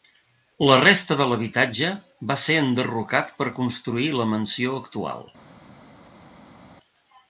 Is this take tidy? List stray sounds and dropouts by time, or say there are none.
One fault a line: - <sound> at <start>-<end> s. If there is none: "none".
none